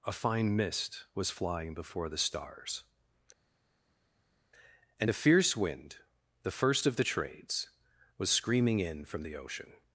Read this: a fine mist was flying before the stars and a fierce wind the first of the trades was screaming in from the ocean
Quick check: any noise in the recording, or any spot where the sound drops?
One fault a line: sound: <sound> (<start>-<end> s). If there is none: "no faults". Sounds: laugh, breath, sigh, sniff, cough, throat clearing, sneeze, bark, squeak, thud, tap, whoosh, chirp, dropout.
no faults